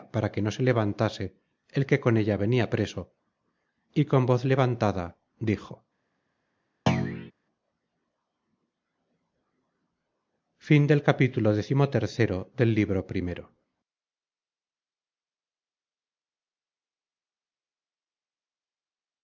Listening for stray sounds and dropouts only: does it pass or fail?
fail